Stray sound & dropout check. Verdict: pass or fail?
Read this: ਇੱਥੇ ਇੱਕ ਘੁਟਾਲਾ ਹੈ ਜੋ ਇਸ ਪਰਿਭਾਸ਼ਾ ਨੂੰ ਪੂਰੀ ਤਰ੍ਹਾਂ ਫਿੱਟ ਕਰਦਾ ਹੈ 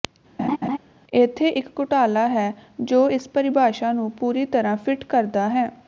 fail